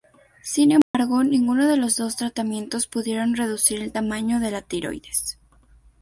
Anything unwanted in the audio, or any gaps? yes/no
yes